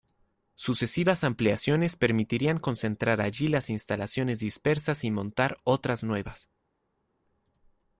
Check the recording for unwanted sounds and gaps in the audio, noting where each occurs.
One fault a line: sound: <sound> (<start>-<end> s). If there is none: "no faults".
no faults